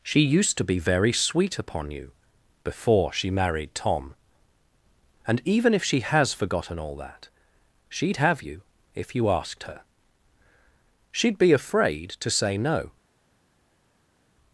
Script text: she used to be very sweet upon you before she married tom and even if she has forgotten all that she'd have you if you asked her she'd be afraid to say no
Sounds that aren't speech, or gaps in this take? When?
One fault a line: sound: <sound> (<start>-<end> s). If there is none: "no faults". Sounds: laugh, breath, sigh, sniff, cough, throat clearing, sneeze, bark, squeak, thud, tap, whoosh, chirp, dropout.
no faults